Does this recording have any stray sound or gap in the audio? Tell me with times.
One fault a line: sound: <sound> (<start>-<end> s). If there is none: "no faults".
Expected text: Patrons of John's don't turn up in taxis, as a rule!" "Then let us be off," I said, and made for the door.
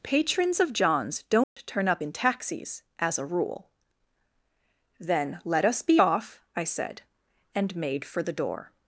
sound: dropout (1.4-1.6 s)